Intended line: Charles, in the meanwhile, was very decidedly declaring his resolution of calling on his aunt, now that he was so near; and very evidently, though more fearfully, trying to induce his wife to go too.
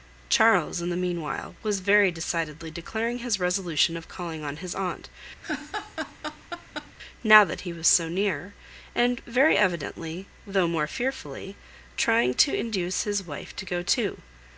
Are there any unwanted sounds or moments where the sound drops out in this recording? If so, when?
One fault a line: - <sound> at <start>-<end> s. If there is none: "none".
- laugh at 5.4-6.9 s